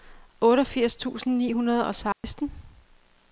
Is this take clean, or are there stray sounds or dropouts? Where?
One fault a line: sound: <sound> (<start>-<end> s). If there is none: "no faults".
sound: dropout (2.1-2.2 s)